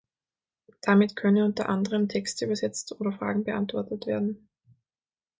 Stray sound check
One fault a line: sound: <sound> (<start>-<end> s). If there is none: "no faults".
no faults